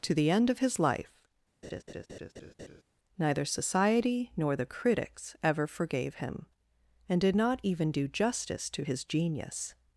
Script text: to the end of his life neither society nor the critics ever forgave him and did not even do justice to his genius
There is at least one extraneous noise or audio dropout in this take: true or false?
true